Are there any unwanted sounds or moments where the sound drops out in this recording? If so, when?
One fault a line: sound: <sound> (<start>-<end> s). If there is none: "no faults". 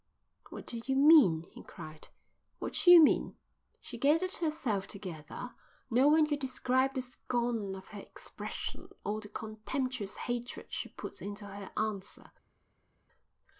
no faults